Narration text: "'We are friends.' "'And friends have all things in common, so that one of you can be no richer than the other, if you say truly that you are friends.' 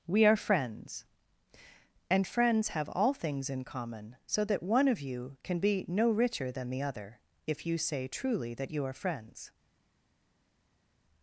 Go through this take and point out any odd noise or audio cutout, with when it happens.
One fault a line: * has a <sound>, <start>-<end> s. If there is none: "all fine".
all fine